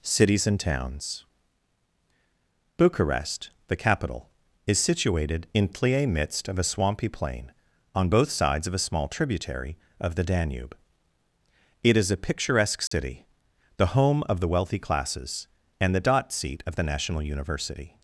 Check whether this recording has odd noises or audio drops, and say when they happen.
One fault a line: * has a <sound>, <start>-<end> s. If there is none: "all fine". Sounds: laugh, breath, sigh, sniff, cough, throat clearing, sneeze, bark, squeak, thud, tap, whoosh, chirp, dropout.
* has a dropout, 12.9-12.9 s